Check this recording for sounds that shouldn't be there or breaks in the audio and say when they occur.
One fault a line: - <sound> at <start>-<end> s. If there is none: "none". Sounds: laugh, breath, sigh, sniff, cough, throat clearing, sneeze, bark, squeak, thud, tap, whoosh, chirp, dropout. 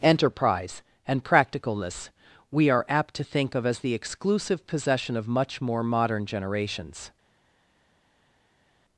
none